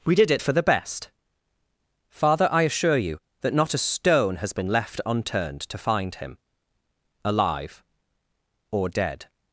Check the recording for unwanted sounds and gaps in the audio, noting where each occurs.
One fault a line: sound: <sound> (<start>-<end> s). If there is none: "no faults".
no faults